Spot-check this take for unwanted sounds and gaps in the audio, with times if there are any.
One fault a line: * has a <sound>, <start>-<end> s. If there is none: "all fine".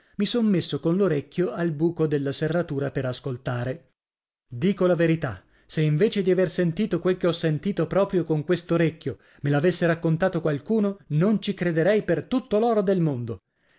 all fine